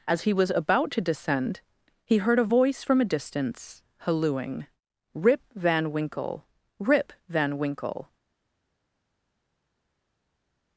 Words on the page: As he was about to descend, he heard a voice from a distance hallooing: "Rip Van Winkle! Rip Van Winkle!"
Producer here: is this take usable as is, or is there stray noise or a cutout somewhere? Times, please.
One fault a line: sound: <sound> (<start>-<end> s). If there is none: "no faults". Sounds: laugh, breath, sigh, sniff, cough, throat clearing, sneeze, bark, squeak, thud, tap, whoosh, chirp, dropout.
no faults